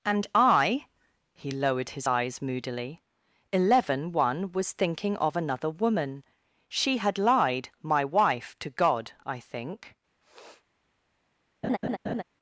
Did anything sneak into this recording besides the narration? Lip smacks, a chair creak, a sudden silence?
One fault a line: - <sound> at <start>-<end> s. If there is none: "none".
- sniff at 10.2-10.6 s
- laugh at 11.6-12.2 s